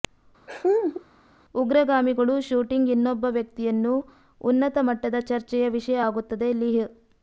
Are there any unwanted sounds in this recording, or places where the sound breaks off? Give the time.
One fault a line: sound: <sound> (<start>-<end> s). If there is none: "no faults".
sound: laugh (0.5-1.0 s)